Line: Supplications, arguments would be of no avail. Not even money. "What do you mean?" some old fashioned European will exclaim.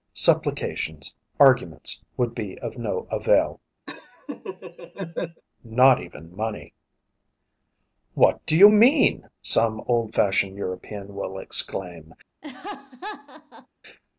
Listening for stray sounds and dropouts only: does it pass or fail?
fail